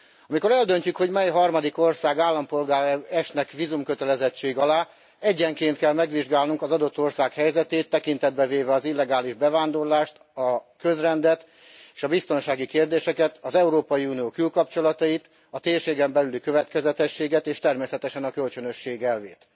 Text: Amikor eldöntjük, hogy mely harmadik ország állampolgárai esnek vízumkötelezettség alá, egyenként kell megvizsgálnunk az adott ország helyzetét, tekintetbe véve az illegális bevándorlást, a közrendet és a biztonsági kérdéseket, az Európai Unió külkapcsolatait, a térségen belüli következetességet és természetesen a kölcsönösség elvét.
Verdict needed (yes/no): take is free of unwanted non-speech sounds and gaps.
yes